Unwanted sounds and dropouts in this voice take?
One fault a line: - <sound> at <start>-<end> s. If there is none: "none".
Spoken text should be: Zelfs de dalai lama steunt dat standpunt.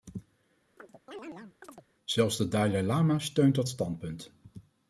- chirp at 0.8-1.9 s